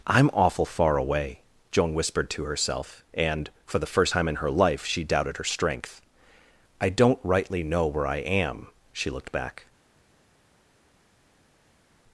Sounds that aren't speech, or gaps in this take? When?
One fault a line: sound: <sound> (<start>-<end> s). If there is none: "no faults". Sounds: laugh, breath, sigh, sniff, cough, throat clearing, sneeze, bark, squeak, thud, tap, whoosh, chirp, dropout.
no faults